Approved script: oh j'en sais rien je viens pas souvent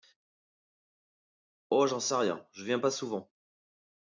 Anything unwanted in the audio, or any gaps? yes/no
no